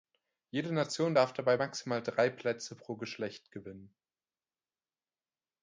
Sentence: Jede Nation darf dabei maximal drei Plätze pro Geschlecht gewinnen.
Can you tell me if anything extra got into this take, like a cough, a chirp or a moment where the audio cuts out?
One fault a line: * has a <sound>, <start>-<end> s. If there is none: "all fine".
all fine